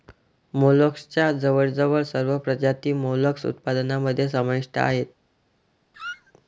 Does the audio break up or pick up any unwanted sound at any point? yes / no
yes